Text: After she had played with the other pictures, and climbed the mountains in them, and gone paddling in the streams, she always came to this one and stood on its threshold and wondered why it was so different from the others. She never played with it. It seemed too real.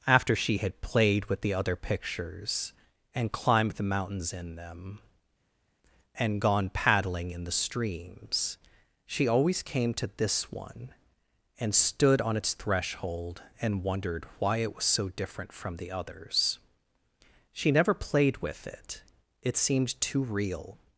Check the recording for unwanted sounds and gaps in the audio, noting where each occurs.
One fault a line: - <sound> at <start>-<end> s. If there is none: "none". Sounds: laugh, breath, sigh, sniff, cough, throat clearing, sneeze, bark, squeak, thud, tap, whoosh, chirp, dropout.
none